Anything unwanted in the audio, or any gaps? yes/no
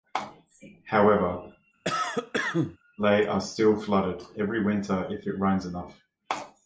yes